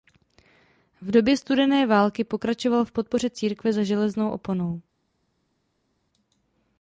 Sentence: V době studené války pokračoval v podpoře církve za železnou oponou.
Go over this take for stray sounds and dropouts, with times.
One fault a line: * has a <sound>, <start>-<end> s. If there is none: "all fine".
all fine